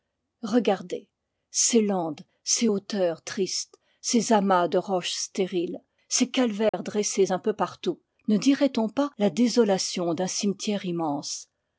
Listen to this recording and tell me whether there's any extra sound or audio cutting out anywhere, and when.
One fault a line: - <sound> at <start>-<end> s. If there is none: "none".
- dropout at 6.7-6.7 s